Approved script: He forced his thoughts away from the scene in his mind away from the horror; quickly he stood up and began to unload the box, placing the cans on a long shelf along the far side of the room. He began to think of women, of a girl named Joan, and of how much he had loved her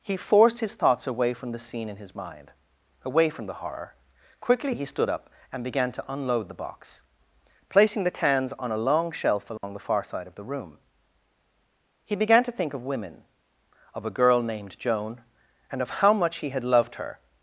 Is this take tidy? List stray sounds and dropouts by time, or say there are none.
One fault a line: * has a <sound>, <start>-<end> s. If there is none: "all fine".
* has a dropout, 9.6-9.6 s